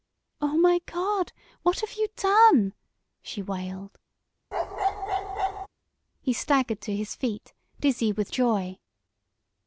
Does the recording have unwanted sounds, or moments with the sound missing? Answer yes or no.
yes